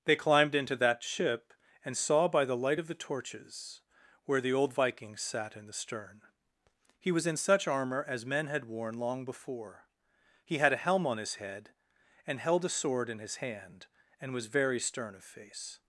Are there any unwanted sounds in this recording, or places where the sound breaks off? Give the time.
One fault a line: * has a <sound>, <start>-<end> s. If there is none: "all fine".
all fine